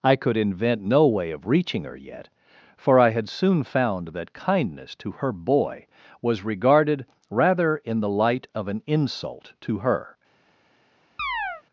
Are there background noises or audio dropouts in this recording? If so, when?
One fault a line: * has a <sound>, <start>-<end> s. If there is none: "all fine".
* has a chirp, 11.2-11.6 s